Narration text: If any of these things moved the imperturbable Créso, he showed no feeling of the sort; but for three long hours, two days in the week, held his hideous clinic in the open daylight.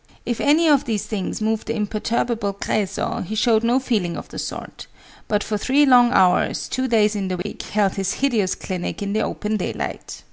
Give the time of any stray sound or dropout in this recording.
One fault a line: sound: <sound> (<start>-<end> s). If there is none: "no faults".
sound: dropout (7.4-7.5 s)